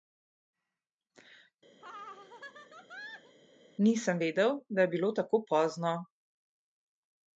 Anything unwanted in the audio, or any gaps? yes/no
yes